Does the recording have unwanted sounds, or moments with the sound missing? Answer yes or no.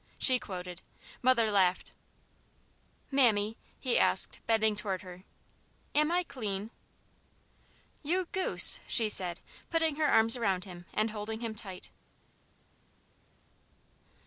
no